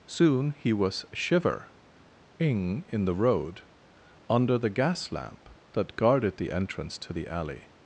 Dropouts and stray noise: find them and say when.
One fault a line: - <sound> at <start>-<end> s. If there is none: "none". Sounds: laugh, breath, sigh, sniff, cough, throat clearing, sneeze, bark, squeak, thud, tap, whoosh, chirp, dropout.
none